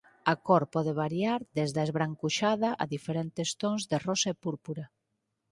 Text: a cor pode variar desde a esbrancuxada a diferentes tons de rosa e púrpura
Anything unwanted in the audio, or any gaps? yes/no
no